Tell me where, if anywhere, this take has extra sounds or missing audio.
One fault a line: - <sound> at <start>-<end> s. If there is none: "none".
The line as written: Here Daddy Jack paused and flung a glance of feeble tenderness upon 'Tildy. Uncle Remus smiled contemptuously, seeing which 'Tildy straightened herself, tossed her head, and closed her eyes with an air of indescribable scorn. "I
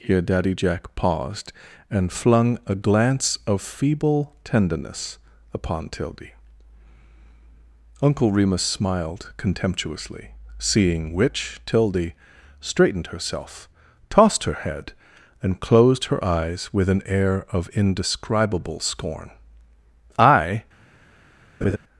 - laugh at 21.6-21.8 s